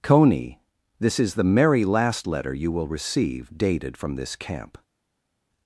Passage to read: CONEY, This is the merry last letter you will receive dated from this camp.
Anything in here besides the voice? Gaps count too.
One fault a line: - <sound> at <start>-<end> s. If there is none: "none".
none